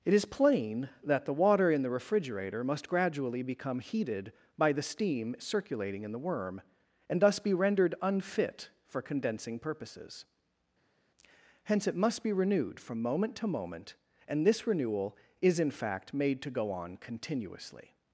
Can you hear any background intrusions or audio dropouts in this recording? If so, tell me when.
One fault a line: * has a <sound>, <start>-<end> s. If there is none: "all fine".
all fine